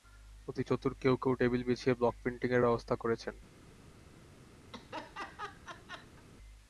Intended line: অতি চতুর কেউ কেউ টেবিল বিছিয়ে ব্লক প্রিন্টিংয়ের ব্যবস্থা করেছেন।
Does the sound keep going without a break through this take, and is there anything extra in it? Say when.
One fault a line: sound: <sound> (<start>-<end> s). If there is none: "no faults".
sound: laugh (4.7-6.2 s)